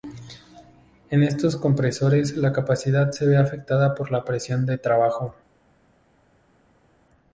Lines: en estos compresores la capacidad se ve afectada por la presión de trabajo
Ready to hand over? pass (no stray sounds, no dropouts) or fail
pass